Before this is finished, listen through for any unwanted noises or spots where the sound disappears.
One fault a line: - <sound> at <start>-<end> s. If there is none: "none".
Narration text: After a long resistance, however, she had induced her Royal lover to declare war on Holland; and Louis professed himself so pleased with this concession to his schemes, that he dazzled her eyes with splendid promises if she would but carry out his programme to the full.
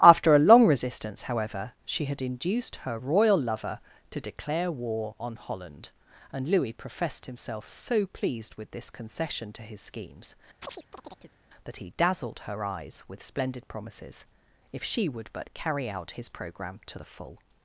- chirp at 10.6-11.4 s